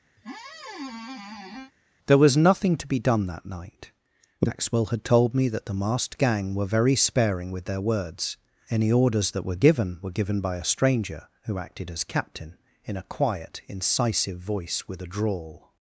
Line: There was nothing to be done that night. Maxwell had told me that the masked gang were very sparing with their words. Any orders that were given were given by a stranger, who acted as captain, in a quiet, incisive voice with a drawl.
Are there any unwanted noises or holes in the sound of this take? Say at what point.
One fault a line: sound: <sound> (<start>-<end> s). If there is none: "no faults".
sound: squeak (0.2-1.7 s)